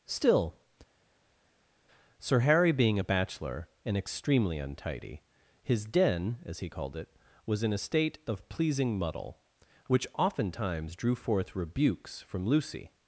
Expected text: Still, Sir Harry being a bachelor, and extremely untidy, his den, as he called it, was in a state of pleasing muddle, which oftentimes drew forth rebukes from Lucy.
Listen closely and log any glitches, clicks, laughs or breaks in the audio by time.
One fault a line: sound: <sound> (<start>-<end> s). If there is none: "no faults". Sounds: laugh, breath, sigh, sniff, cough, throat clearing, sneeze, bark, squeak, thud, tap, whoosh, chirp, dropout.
no faults